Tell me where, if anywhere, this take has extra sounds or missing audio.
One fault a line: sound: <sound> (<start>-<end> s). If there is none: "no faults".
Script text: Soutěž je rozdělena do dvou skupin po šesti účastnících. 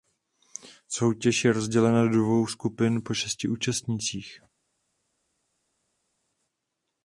no faults